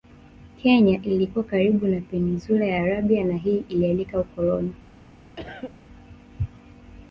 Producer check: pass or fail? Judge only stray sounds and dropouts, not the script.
fail